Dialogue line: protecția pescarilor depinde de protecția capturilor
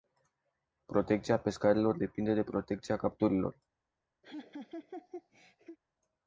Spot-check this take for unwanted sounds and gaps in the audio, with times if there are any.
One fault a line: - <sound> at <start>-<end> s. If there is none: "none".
- laugh at 4.2-5.8 s